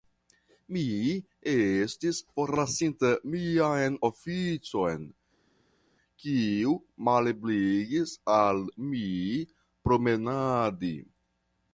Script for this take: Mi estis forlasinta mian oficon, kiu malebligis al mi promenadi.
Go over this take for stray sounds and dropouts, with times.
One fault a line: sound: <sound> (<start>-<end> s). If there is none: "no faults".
no faults